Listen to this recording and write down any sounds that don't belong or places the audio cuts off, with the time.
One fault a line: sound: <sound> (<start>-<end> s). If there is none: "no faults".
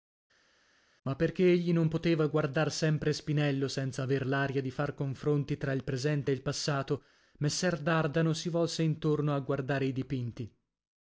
no faults